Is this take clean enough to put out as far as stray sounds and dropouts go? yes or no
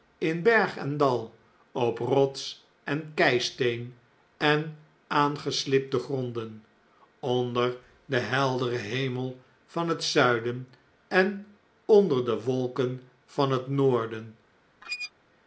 no